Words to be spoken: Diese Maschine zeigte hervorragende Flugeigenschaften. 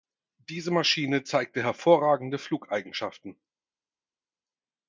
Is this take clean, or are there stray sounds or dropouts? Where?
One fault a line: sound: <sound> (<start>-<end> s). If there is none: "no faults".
no faults